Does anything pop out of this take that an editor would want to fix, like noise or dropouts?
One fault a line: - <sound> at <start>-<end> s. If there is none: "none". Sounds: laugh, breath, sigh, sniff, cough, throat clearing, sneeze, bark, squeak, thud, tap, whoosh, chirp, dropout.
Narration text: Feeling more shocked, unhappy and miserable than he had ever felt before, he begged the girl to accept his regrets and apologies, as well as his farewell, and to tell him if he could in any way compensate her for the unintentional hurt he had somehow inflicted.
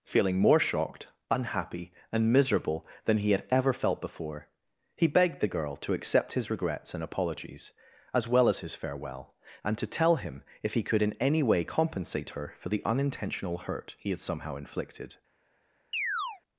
- chirp at 15.9-16.4 s